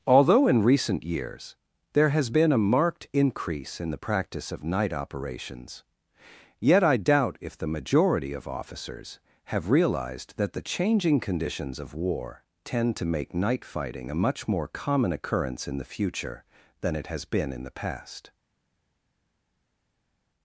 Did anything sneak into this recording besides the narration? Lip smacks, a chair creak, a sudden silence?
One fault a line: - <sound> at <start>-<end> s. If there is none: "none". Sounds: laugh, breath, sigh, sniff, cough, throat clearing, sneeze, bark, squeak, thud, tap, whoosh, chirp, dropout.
none